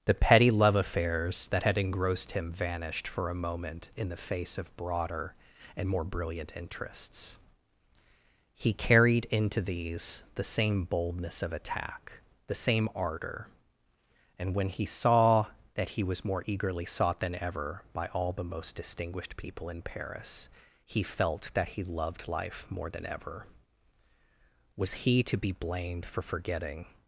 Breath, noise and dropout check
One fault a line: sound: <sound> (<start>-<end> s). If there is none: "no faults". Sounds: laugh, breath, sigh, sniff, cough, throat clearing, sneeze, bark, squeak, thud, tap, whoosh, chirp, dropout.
no faults